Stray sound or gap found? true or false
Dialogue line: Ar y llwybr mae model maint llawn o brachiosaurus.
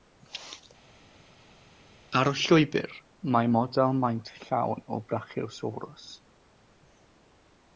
false